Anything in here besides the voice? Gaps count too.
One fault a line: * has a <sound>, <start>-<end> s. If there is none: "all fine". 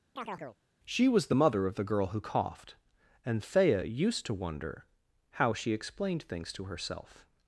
* has a chirp, 0.2-0.6 s